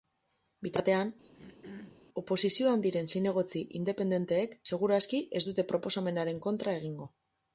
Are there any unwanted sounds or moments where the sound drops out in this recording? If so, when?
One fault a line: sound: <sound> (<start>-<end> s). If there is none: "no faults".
sound: throat clearing (1.2-2.0 s)